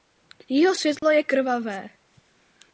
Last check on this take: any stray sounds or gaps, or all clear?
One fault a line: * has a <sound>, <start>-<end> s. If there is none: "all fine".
* has a dropout, 1.0-1.0 s